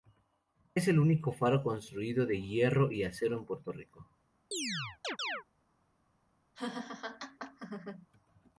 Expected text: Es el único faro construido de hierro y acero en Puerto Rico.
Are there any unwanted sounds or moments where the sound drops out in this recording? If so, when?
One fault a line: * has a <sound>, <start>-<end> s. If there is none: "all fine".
* has a chirp, 4.5-5.4 s
* has a laugh, 6.5-8.1 s